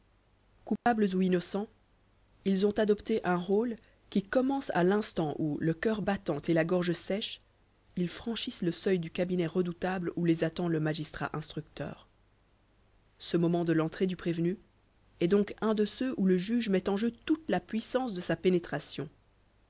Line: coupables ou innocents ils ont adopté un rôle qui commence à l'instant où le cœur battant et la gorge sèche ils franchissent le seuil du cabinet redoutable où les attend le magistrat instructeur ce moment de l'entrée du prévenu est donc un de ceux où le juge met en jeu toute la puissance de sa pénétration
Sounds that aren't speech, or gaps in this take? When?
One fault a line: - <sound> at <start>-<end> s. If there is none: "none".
- dropout at 0.8-0.9 s